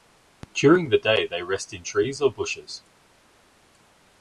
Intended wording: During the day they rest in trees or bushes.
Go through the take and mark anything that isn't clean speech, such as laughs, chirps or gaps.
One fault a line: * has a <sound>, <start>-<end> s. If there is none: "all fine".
all fine